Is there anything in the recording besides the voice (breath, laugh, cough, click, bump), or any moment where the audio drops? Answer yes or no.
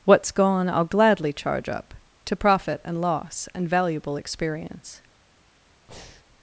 yes